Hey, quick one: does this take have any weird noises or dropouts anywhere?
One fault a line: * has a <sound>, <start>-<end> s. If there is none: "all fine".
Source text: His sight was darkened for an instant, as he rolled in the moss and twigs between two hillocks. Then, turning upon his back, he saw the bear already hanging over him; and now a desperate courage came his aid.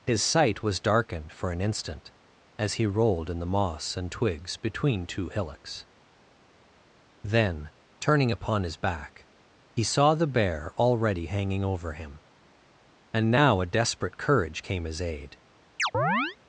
* has a chirp, 15.8-16.4 s